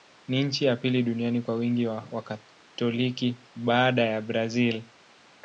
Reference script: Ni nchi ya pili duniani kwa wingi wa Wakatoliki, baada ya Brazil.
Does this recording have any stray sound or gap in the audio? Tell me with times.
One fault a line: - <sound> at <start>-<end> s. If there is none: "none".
none